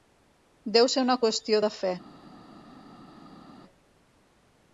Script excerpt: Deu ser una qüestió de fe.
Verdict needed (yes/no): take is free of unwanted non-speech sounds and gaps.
yes